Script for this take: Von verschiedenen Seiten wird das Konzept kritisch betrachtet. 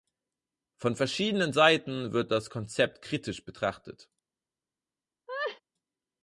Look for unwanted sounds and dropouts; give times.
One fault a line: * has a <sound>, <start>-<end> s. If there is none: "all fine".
* has a laugh, 5.3-5.6 s